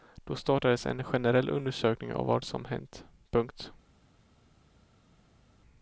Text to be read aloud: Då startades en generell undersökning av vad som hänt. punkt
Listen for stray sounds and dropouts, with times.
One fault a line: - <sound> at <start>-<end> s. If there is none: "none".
none